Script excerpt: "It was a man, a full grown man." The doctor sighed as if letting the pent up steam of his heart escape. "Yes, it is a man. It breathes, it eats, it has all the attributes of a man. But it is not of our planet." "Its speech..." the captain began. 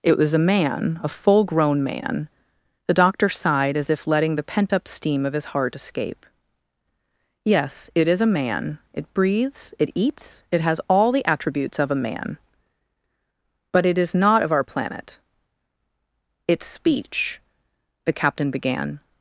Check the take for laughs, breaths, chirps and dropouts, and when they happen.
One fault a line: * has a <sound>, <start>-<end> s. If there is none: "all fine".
all fine